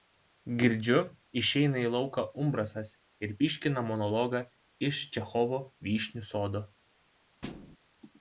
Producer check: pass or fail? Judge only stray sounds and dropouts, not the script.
fail